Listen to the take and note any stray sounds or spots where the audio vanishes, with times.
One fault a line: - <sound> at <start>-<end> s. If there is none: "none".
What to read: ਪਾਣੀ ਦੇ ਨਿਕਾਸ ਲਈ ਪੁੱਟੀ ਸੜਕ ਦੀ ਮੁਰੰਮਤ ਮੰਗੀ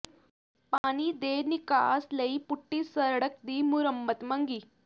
- dropout at 0.8-0.8 s